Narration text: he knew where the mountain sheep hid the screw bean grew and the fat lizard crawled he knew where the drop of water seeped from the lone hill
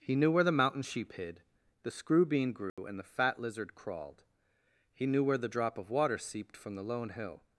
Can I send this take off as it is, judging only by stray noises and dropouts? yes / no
no